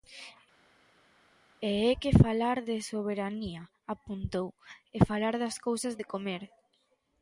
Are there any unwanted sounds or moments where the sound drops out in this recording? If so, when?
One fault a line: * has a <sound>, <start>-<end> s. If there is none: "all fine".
all fine